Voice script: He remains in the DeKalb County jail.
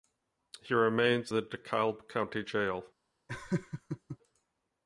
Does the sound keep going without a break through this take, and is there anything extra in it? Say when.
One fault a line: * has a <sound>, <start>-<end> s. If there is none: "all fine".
* has a laugh, 3.3-4.2 s